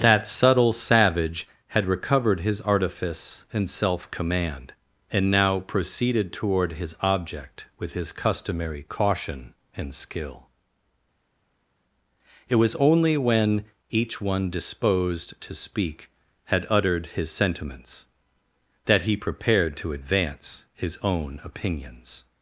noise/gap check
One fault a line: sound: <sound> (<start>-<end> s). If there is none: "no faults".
no faults